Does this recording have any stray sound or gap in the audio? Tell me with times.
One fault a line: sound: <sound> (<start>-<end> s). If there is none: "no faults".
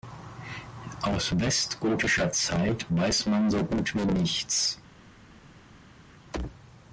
no faults